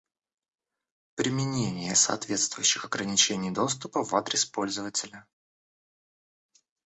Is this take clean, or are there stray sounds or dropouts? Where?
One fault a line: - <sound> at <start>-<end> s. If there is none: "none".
none